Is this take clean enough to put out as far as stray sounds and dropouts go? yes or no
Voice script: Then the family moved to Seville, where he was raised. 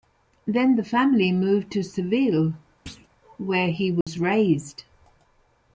no